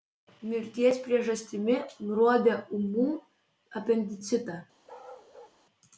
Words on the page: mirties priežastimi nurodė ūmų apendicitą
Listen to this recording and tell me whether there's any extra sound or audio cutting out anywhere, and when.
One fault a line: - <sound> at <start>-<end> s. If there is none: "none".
- bark at 4.9-5.6 s